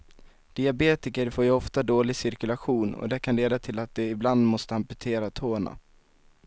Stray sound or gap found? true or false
false